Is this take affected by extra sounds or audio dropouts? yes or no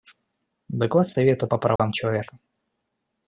yes